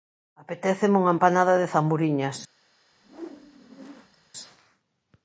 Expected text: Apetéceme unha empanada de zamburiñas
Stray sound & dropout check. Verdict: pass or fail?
fail